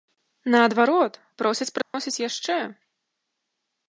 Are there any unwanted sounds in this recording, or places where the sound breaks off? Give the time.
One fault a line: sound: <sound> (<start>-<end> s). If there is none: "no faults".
sound: dropout (1.8-1.9 s)